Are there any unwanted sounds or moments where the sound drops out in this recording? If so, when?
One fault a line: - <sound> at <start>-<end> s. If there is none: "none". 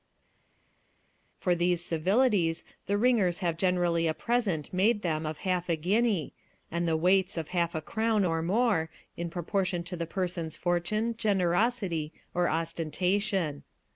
none